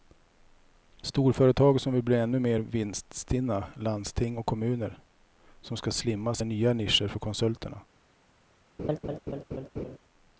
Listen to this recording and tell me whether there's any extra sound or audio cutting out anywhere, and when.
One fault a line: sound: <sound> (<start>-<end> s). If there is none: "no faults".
sound: laugh (8.8-10.0 s)